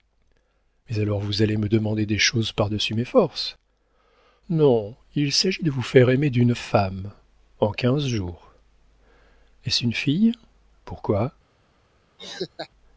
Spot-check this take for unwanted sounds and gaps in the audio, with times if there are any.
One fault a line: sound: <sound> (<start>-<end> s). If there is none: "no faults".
sound: laugh (12.2-12.7 s)